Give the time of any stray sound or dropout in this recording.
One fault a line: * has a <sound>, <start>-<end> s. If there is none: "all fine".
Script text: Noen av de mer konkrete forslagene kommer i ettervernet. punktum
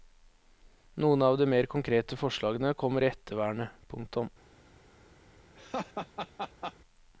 * has a laugh, 5.5-6.7 s